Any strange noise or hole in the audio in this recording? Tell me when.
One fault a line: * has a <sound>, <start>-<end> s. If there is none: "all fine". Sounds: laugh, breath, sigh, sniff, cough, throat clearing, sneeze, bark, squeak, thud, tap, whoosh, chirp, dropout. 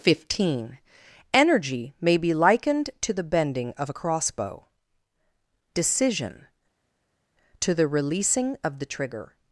all fine